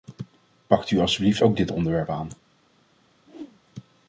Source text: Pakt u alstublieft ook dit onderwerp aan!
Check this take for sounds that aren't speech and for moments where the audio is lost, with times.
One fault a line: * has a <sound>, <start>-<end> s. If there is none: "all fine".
* has a whoosh, 3.3-3.6 s